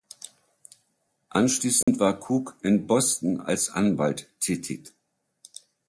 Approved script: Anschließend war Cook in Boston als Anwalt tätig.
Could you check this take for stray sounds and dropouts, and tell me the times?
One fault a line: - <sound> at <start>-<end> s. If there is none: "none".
- dropout at 1.8-1.9 s